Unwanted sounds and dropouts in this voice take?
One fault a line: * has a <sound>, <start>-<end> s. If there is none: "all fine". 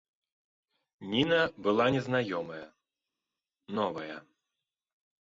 all fine